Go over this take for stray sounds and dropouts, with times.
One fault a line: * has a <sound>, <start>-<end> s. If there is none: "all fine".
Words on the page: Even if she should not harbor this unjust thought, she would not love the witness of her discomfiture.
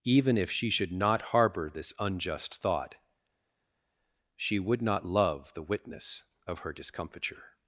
all fine